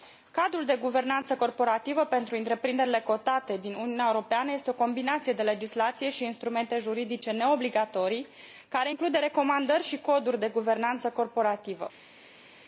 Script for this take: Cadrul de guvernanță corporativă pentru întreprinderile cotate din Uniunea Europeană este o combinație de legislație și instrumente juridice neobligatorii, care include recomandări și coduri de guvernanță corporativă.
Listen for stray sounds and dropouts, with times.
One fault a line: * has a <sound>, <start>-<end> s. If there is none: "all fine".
all fine